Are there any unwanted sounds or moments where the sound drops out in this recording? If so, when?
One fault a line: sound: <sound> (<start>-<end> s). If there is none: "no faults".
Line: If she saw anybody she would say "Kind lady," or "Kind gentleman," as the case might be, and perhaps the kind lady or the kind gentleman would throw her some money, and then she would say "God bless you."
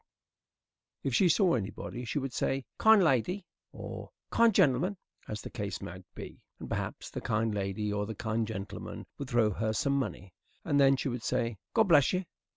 no faults